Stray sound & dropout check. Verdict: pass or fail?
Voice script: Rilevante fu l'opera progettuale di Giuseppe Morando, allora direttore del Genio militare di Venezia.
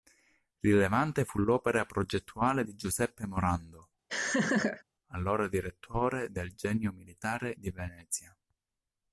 fail